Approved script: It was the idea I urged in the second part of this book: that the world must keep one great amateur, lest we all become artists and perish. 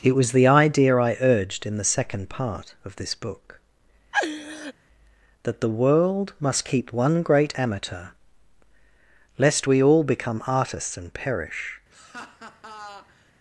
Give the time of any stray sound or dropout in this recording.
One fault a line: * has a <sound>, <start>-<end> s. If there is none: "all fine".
* has a laugh, 4.1-4.7 s
* has a laugh, 11.9-13.3 s